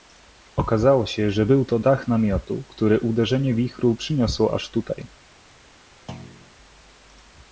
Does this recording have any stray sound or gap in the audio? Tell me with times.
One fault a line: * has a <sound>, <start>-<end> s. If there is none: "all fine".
* has a thud, 6.1-6.5 s